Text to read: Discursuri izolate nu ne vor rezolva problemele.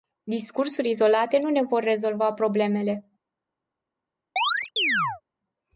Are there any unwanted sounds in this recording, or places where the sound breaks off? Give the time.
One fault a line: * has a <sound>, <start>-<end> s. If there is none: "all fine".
* has a chirp, 4.4-5.2 s